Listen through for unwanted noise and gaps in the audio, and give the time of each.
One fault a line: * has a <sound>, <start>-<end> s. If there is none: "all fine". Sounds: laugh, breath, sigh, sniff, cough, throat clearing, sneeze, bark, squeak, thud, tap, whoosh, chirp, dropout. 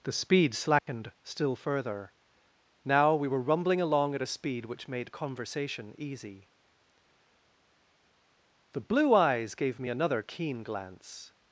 * has a dropout, 0.8-0.9 s